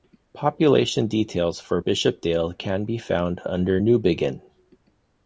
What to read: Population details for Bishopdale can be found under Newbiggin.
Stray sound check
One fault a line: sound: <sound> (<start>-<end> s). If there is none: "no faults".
no faults